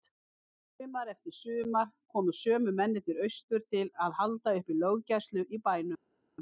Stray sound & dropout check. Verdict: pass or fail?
pass